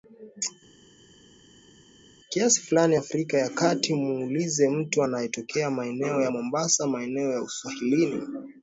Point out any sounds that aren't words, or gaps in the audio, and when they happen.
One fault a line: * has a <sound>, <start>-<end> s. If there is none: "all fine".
all fine